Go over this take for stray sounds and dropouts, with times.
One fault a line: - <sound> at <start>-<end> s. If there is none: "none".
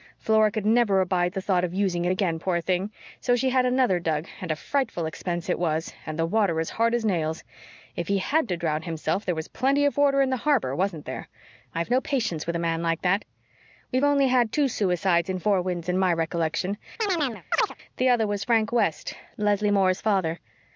- chirp at 17.0-17.8 s